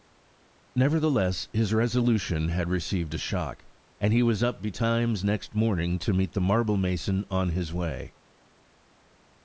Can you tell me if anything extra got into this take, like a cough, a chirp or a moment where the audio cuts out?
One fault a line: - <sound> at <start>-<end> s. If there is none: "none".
none